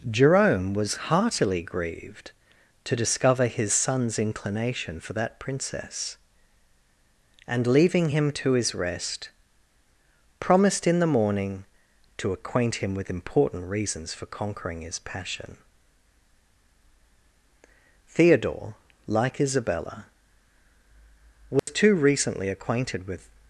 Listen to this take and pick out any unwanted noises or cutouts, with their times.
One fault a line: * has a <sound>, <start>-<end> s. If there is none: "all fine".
* has a dropout, 21.6-21.7 s